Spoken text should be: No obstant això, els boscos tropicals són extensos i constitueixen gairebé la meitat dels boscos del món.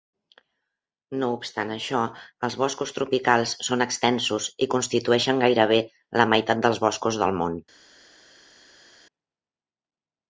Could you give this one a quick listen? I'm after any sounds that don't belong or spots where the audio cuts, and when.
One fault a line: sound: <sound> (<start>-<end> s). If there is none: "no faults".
no faults